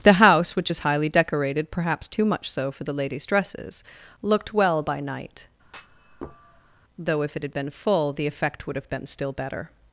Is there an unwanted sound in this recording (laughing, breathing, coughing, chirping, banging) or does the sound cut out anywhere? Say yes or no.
yes